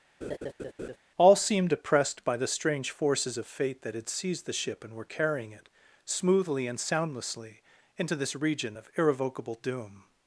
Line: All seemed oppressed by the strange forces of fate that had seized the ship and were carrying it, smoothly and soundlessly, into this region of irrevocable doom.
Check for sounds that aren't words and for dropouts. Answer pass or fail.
fail